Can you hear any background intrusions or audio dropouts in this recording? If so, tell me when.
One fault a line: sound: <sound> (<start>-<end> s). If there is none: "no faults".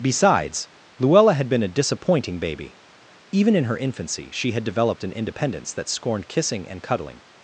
no faults